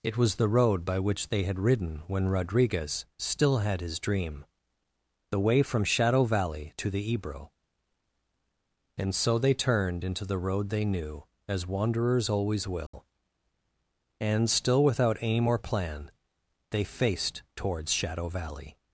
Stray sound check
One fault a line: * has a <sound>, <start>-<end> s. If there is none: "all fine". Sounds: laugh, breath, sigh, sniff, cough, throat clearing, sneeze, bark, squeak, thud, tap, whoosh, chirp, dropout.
* has a dropout, 12.9-12.9 s